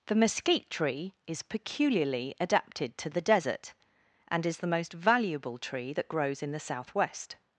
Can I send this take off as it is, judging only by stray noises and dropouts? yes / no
yes